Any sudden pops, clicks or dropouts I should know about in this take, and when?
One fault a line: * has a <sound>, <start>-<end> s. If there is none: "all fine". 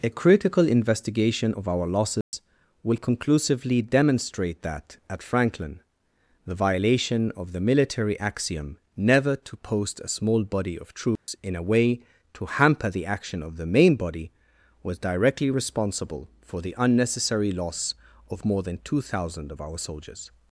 * has a dropout, 2.2-2.3 s
* has a dropout, 11.2-11.3 s